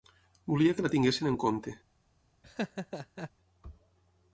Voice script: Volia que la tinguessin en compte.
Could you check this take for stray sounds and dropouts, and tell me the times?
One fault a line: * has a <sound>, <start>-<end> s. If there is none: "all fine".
* has a laugh, 2.4-3.3 s